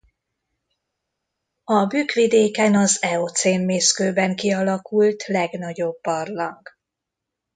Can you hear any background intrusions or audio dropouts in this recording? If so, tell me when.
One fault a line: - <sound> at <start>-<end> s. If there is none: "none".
none